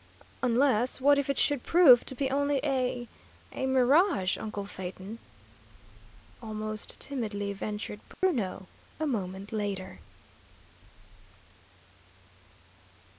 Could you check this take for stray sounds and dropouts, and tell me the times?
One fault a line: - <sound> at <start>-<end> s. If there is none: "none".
- dropout at 8.1-8.2 s